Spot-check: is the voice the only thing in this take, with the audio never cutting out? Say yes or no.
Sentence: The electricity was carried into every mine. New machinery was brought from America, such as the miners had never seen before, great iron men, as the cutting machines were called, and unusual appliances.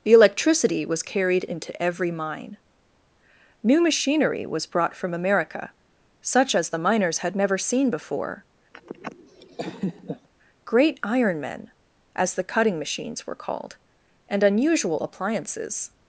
no